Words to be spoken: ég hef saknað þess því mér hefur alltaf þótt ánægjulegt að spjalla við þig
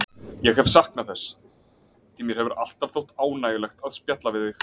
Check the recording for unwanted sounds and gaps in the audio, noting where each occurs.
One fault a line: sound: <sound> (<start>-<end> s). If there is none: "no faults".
no faults